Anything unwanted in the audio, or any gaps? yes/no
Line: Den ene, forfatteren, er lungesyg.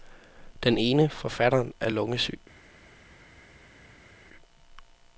no